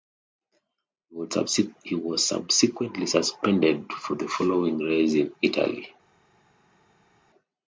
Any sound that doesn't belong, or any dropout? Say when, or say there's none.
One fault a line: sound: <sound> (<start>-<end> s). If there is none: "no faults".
no faults